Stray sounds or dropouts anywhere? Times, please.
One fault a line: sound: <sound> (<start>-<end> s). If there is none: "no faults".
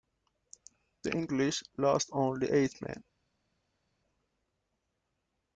no faults